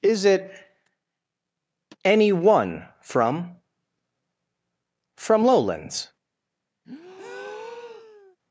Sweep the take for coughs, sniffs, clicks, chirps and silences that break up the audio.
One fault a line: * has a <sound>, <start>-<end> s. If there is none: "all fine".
* has a breath, 6.8-8.4 s